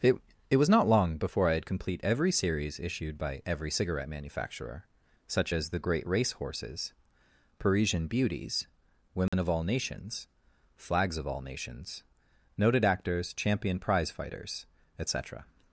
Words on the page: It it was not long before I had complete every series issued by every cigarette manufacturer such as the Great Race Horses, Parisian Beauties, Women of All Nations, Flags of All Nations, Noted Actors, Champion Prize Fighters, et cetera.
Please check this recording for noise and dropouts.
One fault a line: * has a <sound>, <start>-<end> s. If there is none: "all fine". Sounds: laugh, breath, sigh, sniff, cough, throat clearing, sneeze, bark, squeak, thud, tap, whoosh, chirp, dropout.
* has a dropout, 9.3-9.3 s